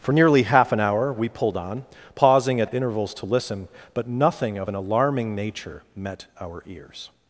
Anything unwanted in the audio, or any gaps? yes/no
no